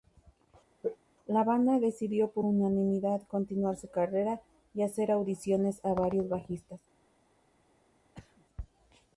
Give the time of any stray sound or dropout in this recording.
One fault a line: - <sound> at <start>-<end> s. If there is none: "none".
- sneeze at 0.8-1.0 s
- throat clearing at 8.1-8.5 s